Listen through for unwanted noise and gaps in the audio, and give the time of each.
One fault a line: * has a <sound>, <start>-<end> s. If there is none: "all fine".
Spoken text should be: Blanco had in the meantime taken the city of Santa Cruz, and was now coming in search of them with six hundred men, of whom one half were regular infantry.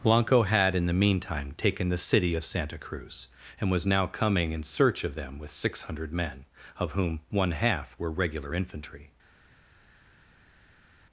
all fine